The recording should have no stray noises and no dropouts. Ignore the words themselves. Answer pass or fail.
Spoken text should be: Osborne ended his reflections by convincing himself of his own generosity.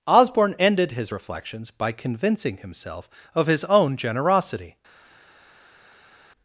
pass